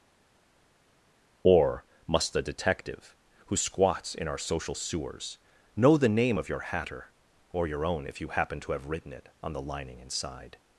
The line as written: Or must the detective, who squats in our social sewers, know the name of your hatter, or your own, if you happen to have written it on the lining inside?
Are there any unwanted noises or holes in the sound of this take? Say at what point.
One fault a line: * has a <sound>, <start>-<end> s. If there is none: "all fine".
all fine